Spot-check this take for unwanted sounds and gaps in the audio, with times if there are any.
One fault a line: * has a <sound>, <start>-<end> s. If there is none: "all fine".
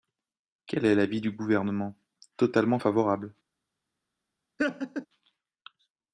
* has a laugh, 4.6-5.1 s